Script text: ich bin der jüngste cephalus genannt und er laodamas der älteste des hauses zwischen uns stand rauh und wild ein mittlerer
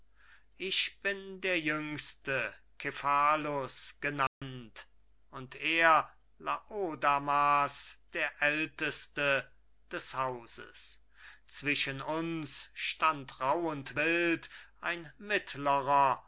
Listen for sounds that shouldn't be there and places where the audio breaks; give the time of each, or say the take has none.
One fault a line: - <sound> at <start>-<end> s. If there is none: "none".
- dropout at 4.3-4.4 s